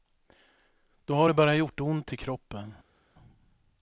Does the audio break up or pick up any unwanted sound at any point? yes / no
no